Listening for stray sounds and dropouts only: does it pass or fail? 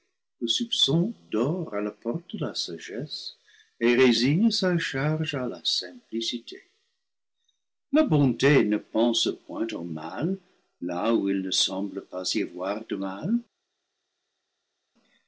pass